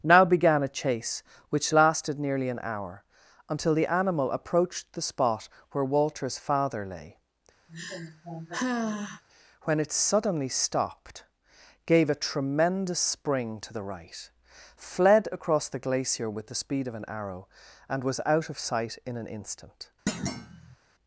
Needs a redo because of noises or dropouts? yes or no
yes